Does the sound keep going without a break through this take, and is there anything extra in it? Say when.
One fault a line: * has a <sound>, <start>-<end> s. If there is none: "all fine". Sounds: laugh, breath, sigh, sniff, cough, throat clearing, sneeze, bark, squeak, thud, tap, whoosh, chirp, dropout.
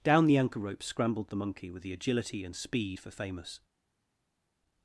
all fine